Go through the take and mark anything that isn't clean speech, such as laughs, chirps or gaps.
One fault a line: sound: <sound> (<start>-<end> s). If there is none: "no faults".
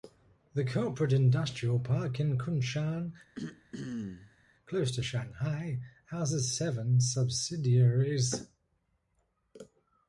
sound: throat clearing (3.3-4.5 s)